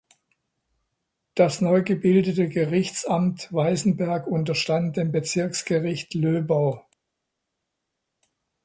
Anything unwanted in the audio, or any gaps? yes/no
no